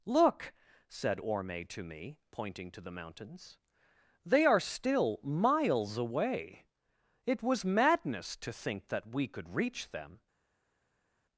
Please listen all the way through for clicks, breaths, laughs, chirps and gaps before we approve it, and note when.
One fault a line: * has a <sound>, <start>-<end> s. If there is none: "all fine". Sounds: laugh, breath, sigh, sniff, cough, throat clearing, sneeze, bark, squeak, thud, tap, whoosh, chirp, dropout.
all fine